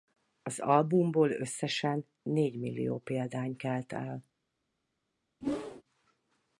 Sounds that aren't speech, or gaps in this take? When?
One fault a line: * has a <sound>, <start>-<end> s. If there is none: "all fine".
* has a whoosh, 5.4-5.8 s